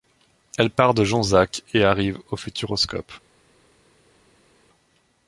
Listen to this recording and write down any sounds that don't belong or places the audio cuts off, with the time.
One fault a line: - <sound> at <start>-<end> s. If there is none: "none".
none